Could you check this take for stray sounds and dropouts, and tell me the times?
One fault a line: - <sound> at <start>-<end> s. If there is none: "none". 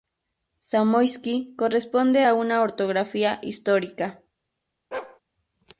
- bark at 4.9-5.2 s